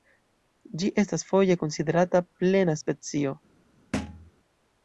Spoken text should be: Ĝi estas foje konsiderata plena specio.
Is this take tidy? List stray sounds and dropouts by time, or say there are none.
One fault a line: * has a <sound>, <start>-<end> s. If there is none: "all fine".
* has a thud, 3.9-4.3 s